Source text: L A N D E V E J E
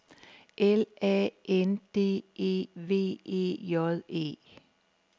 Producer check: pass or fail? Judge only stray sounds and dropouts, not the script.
pass